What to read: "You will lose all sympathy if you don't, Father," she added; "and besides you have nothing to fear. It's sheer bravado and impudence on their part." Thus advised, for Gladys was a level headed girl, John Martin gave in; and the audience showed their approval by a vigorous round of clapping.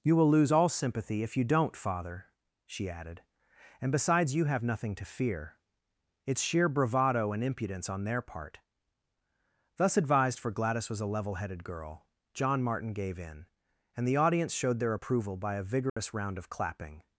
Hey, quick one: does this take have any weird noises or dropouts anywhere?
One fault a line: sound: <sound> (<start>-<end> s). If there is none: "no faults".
sound: dropout (15.9-16.0 s)